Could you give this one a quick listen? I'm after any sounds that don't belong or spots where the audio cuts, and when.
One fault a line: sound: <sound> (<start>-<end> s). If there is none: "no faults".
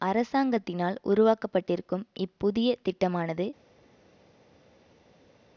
no faults